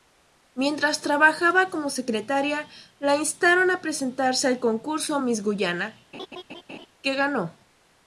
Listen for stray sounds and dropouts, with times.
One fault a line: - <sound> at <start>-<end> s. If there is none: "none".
- laugh at 6.1-6.9 s